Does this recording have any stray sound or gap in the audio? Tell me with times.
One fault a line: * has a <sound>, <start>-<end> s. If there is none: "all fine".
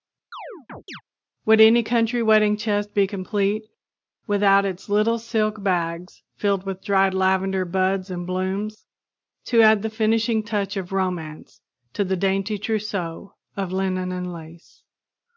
* has a chirp, 0.3-1.0 s